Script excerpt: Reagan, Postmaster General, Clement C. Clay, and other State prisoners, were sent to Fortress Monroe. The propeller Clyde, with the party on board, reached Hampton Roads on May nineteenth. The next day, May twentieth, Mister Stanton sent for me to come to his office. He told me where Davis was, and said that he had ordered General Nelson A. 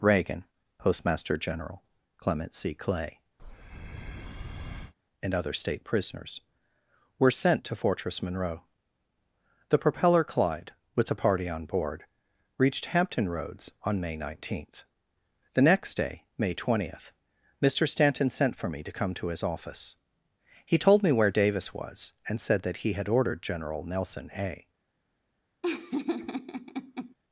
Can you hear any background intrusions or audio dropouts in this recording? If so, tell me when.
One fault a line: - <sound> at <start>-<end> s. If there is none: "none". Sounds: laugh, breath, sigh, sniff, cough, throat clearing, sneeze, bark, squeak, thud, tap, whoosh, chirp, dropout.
- breath at 3.4-4.9 s
- laugh at 25.6-27.2 s